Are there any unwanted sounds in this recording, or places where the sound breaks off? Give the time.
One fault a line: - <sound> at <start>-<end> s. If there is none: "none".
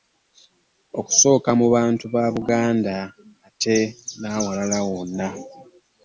none